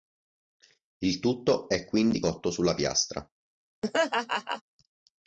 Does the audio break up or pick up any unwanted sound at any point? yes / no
yes